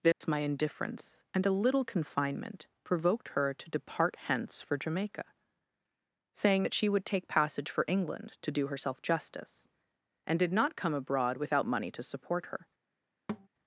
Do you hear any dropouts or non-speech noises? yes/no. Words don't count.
yes